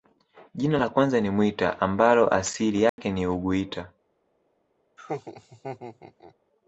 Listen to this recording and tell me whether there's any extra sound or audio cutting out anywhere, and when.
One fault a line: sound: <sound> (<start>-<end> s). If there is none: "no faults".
sound: dropout (2.9-3.0 s)
sound: laugh (5.0-6.3 s)